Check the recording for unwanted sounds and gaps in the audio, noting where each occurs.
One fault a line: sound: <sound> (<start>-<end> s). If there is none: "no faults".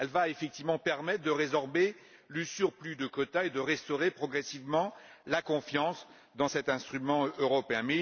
no faults